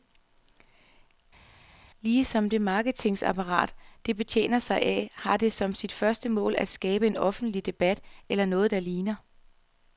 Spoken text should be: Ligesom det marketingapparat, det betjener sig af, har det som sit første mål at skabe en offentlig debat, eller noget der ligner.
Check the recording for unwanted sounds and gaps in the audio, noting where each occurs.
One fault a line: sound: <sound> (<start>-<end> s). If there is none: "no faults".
no faults